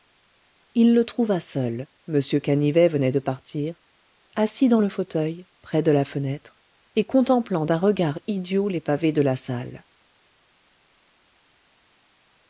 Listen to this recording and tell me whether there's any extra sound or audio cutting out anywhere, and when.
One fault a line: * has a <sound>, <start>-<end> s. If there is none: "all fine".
all fine